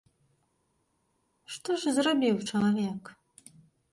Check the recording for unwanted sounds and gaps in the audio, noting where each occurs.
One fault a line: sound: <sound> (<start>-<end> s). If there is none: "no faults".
no faults